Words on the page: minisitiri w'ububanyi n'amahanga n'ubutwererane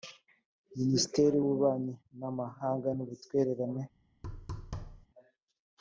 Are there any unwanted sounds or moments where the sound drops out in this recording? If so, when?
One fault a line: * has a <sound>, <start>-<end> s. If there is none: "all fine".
* has a thud, 4.2-5.1 s